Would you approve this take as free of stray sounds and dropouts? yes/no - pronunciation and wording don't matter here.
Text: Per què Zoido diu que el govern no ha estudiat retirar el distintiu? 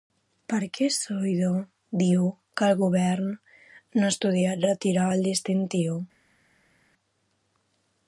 yes